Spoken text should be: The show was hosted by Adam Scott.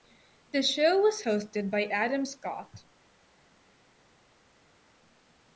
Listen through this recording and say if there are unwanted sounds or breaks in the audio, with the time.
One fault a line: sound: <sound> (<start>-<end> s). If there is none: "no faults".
no faults